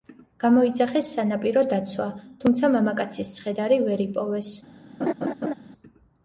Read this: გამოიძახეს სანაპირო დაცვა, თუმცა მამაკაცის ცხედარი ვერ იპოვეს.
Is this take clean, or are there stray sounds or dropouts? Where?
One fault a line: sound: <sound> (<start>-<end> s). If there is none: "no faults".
sound: laugh (5.0-5.5 s)